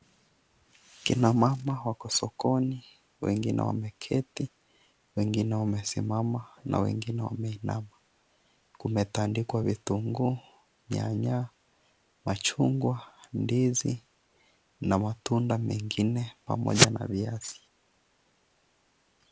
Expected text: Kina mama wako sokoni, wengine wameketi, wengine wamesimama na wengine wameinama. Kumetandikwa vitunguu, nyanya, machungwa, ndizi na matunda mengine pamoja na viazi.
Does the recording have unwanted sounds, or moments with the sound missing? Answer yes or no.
no